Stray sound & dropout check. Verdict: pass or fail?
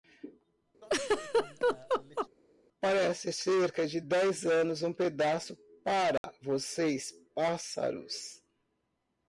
fail